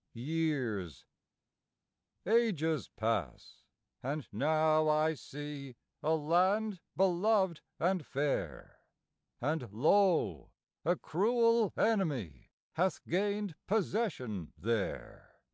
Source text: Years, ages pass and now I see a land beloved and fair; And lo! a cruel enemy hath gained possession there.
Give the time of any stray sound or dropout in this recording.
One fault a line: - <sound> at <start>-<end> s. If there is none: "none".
none